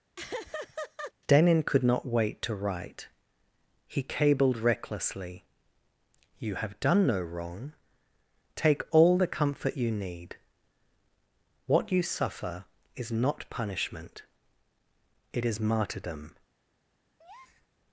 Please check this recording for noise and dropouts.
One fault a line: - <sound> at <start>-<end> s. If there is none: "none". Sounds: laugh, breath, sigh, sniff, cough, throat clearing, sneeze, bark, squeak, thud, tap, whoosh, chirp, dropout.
- laugh at 0.2-1.1 s
- breath at 17.2-17.7 s